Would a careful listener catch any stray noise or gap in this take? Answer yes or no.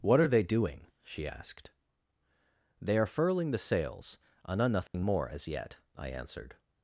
yes